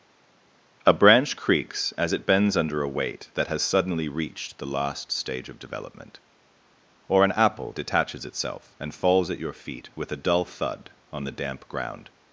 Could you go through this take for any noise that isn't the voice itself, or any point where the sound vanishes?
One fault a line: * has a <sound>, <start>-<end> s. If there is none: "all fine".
all fine